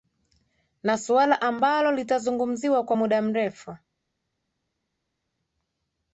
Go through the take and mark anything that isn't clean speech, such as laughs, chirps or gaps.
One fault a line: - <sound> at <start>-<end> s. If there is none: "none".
none